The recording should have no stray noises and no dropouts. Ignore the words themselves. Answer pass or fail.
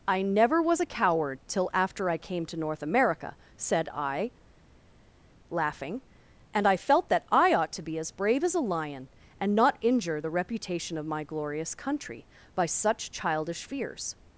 pass